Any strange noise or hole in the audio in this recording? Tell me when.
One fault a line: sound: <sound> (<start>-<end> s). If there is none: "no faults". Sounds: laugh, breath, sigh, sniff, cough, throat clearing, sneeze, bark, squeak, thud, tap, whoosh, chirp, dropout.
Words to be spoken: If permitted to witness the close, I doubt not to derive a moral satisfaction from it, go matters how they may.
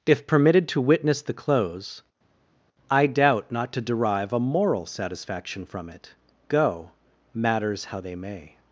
no faults